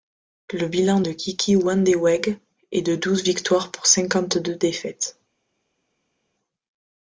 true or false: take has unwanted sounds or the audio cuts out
false